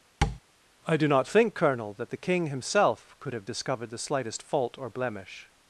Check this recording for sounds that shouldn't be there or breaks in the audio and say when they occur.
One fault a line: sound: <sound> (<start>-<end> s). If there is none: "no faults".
sound: tap (0.2-0.4 s)